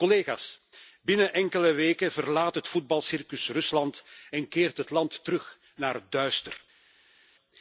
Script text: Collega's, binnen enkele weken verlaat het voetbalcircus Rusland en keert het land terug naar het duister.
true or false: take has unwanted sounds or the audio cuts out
false